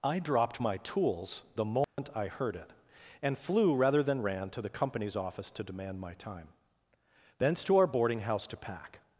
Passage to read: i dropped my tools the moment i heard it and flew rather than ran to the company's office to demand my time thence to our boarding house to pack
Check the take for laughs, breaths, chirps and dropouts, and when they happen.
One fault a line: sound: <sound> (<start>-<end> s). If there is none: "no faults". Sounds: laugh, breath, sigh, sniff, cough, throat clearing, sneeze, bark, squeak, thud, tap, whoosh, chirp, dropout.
sound: dropout (1.8-2.0 s)